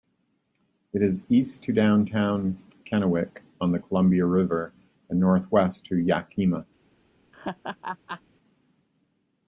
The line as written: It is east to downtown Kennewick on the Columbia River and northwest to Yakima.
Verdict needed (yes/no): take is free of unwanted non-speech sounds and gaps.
no